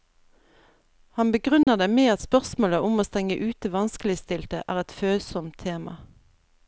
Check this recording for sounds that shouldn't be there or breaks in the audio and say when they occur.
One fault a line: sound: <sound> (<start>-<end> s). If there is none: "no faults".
sound: dropout (1.6-1.7 s)